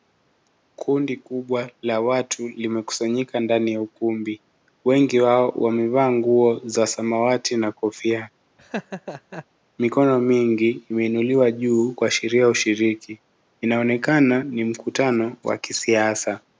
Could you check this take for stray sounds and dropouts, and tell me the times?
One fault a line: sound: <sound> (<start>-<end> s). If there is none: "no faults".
sound: laugh (8.6-9.5 s)